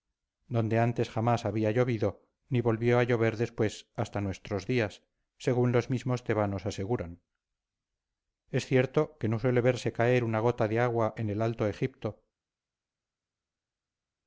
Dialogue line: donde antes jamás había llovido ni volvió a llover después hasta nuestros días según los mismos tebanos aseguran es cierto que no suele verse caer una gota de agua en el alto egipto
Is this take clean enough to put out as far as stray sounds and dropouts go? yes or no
yes